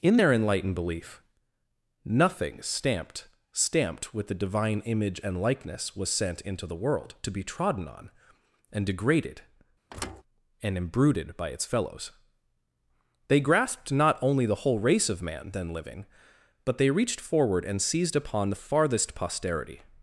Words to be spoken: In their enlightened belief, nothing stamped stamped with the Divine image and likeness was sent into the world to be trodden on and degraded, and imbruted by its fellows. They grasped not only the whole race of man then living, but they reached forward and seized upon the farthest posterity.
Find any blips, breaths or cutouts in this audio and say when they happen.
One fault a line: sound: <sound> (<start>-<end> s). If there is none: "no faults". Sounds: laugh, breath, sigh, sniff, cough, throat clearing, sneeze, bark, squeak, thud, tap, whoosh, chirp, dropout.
sound: thud (9.9-10.2 s)